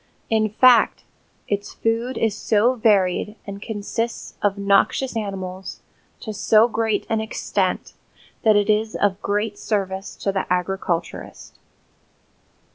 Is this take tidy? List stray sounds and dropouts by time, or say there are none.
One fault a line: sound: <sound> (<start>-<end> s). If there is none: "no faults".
no faults